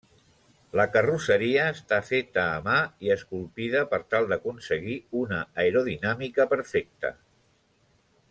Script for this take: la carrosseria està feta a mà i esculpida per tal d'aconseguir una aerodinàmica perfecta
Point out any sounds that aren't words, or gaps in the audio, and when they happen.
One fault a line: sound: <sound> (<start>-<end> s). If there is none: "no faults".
no faults